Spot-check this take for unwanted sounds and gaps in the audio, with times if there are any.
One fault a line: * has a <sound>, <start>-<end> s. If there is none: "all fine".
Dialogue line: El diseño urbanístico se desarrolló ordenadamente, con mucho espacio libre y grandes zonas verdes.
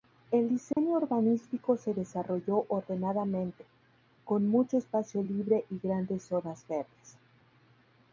* has a dropout, 0.7-0.8 s